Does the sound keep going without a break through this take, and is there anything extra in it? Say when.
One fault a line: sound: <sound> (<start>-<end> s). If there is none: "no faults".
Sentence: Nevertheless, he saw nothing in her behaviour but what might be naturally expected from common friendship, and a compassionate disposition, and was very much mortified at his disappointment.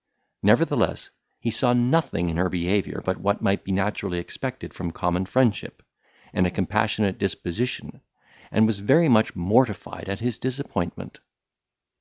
no faults